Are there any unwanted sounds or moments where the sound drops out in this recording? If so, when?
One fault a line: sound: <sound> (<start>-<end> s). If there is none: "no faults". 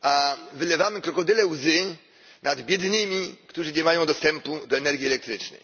no faults